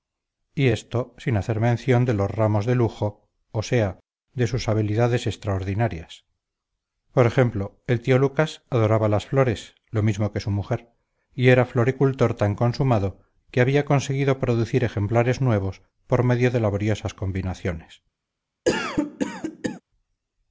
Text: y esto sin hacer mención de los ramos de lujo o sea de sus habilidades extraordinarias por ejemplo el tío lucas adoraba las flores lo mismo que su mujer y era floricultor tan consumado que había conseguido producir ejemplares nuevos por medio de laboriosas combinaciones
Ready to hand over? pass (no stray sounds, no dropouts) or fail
fail